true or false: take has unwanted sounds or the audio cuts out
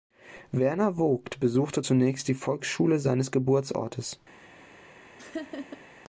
true